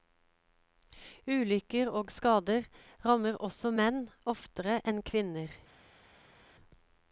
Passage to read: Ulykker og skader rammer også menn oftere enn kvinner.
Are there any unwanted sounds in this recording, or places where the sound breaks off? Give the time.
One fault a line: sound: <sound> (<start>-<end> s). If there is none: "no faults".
no faults